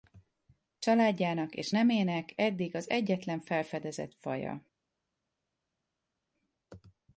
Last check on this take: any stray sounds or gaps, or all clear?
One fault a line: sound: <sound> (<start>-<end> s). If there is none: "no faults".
no faults